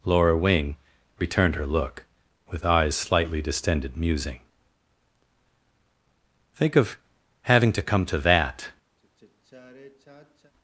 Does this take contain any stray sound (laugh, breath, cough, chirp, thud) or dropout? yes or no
yes